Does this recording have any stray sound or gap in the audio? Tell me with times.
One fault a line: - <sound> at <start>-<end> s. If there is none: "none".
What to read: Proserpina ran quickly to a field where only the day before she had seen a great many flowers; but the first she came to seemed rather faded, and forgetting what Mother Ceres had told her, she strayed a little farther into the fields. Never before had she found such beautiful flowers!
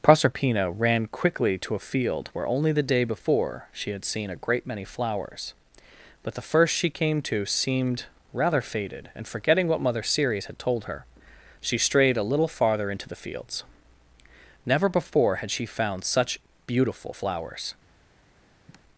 - sigh at 18.7-18.8 s